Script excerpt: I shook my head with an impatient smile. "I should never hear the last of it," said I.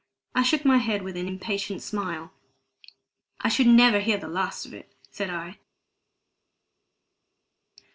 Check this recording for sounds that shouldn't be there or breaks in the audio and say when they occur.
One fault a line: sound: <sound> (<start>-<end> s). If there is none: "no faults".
no faults